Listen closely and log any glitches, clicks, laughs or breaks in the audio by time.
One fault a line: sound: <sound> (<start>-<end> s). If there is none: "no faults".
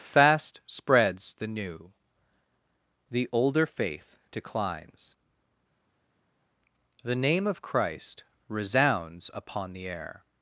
no faults